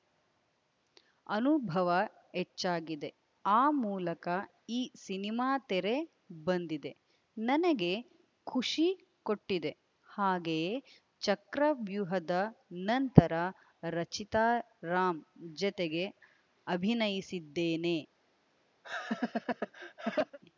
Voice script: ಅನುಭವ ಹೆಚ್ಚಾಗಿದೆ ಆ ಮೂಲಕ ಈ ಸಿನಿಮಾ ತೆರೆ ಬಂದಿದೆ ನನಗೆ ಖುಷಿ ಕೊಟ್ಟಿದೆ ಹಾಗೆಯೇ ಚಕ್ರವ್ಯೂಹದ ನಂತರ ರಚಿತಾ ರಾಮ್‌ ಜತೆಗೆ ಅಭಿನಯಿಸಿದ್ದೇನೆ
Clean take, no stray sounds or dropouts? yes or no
no